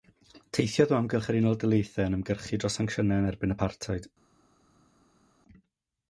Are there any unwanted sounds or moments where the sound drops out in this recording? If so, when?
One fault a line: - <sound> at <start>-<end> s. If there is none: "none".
none